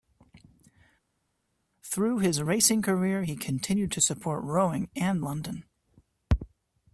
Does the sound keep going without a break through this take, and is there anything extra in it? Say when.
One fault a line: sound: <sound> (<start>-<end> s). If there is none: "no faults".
no faults